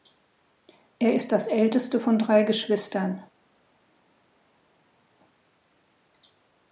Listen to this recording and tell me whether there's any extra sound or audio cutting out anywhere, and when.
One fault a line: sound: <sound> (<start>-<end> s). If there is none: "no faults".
no faults